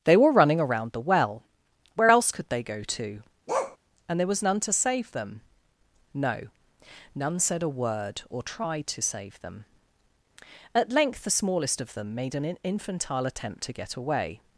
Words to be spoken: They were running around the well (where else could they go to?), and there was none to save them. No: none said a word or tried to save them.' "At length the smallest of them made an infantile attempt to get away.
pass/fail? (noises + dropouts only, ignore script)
fail